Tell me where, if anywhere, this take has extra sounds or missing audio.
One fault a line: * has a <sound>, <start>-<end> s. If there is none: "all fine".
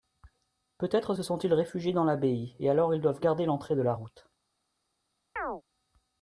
* has a chirp, 5.4-5.6 s